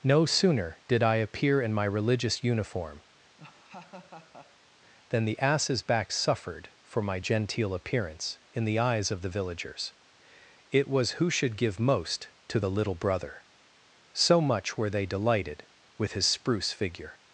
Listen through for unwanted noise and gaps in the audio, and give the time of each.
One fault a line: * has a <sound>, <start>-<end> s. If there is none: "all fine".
* has a laugh, 3.4-4.7 s